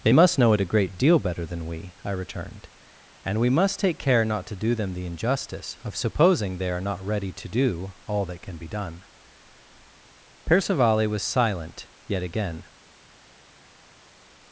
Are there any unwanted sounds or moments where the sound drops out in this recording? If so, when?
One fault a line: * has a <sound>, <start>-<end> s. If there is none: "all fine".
all fine